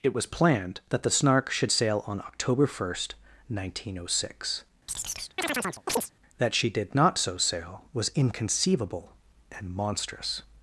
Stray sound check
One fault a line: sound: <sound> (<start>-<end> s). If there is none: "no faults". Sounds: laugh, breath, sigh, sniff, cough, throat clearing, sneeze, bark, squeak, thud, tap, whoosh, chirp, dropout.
sound: chirp (4.9-6.1 s)